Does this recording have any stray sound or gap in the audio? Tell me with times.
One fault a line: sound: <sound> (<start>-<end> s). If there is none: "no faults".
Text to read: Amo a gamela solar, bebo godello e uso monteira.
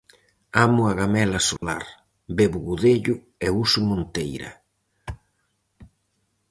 sound: dropout (1.6-1.6 s)